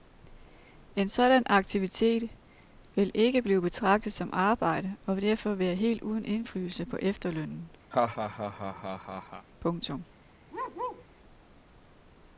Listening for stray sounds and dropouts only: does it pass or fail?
fail